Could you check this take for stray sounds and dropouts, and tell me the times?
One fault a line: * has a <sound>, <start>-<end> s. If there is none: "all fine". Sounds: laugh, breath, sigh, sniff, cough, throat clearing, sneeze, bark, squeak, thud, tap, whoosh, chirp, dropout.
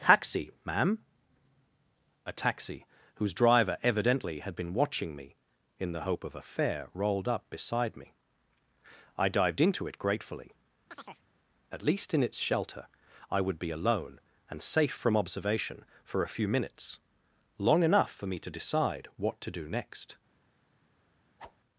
* has a chirp, 10.9-11.3 s
* has a whoosh, 21.4-21.6 s